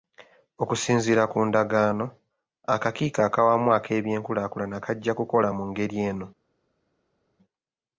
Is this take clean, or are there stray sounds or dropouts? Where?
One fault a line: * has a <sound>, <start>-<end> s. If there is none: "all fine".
all fine